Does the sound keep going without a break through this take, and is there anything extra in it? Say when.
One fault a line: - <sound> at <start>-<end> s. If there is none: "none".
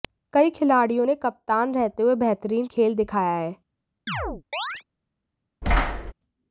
- chirp at 4.1-4.8 s
- thud at 5.6-6.1 s